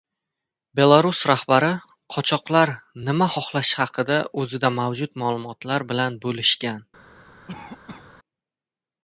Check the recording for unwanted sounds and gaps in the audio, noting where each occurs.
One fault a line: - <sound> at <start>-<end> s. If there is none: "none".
- cough at 7.5-8.1 s